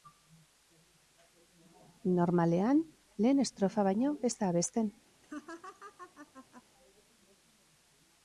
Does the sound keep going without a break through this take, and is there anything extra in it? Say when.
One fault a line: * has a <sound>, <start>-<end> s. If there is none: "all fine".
* has a laugh, 5.2-6.6 s